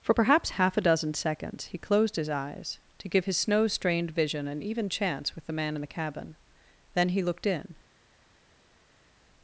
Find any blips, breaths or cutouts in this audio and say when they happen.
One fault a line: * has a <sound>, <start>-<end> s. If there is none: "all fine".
all fine